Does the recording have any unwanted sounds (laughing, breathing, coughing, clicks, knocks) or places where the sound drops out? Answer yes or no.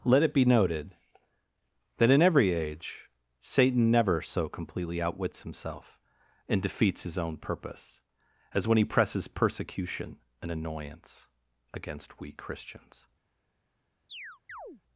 yes